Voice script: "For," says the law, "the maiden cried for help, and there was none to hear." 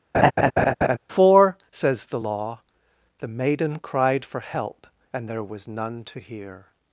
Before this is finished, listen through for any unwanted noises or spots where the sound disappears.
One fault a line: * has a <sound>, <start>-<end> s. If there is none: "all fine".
* has a laugh, 0.1-1.0 s